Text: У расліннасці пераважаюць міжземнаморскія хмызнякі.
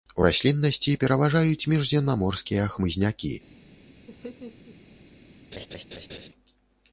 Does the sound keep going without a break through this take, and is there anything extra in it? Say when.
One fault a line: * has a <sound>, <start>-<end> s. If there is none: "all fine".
* has a laugh, 4.1-4.8 s
* has a laugh, 5.5-6.3 s